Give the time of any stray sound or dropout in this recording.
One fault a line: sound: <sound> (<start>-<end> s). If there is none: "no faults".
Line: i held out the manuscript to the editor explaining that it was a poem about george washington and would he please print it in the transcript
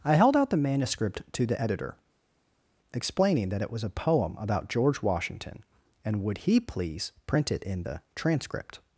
no faults